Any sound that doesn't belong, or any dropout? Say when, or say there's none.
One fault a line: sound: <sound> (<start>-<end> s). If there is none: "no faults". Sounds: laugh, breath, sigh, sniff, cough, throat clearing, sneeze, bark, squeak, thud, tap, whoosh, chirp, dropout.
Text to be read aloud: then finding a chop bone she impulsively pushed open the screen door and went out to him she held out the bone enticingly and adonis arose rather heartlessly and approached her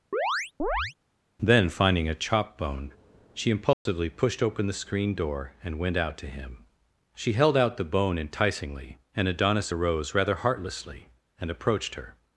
sound: chirp (0.1-0.9 s)
sound: dropout (3.7-3.9 s)